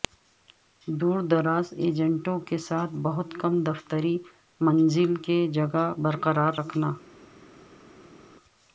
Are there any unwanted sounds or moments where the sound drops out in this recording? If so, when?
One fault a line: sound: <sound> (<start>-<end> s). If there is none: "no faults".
no faults